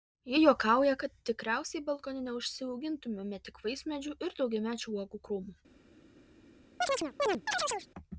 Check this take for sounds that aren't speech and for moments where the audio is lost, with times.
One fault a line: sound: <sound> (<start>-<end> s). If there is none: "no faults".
sound: chirp (6.8-7.9 s)